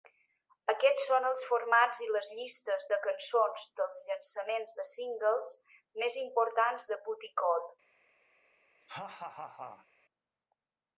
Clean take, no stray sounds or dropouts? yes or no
no